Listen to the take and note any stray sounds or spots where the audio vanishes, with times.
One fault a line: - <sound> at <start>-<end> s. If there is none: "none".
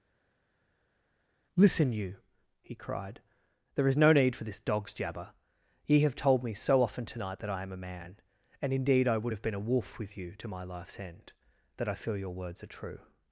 none